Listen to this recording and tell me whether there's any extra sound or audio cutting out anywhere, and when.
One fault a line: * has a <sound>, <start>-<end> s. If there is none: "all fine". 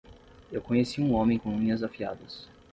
all fine